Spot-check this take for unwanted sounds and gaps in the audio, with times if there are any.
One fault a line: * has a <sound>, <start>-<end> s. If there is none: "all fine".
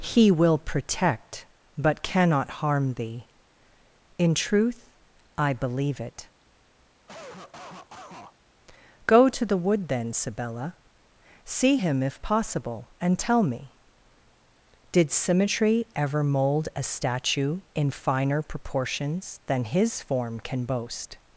* has a cough, 7.1-8.3 s